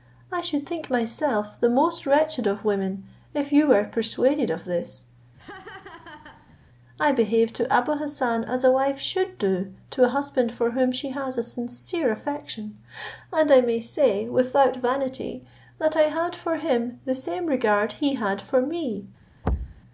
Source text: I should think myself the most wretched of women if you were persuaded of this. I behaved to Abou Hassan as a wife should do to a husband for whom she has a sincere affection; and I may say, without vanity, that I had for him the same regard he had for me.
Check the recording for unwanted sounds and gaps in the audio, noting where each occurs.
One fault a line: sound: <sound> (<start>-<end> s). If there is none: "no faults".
sound: laugh (5.4-6.6 s)
sound: thud (19.4-19.8 s)